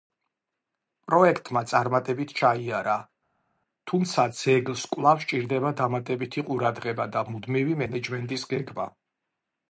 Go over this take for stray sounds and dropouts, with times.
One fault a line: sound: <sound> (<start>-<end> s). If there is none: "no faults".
no faults